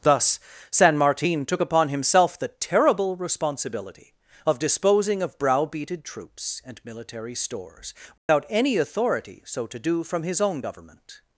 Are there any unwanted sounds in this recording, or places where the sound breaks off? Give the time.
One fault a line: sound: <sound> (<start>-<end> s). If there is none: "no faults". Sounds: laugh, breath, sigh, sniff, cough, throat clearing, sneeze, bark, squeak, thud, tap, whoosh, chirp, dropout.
sound: dropout (8.2-8.3 s)